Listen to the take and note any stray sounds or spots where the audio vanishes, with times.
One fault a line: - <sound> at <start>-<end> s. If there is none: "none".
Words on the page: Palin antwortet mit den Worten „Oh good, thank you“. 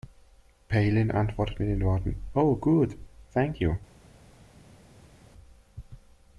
none